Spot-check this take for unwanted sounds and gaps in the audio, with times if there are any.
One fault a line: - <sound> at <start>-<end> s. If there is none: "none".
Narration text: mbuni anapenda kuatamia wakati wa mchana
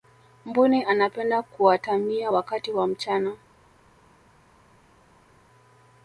none